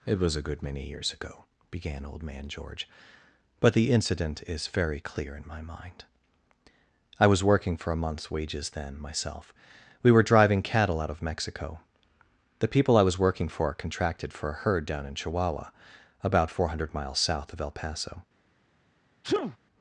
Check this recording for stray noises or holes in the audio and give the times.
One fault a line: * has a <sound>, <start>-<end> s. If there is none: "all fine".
* has a sneeze, 19.2-19.6 s